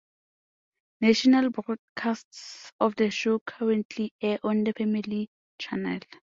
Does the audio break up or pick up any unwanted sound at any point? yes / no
no